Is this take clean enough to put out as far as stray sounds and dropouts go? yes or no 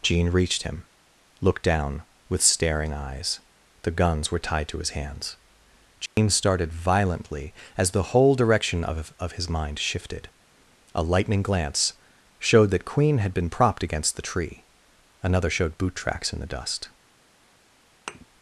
no